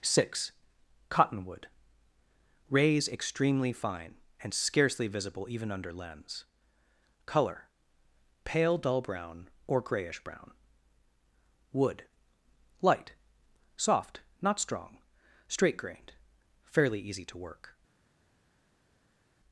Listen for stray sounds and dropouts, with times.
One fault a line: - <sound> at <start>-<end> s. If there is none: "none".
none